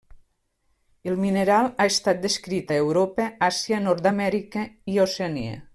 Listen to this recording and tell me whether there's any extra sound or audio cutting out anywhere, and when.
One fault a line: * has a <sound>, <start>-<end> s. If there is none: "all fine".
all fine